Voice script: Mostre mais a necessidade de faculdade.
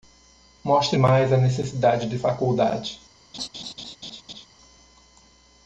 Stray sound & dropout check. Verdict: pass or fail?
fail